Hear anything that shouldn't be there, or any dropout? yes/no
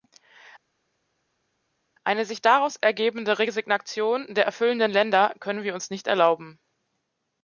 no